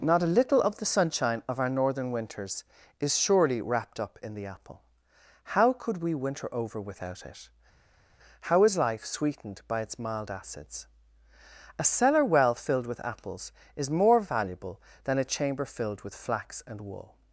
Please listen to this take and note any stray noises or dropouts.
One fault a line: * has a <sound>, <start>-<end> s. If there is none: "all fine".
all fine